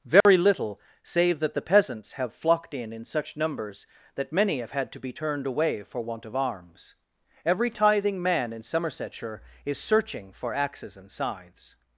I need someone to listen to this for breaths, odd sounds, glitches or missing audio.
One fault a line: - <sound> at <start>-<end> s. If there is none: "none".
- dropout at 0.2-0.3 s